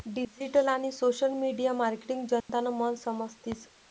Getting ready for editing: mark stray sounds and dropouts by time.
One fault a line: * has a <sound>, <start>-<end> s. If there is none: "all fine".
* has a dropout, 2.4-2.5 s